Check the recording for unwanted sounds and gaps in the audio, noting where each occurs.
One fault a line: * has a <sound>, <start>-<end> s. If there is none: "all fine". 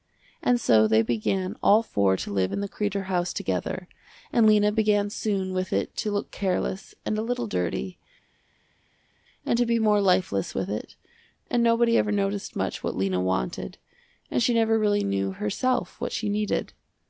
all fine